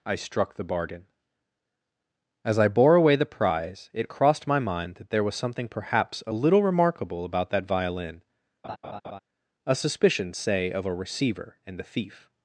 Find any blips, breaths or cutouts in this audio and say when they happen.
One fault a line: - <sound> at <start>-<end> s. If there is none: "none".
- laugh at 8.6-9.2 s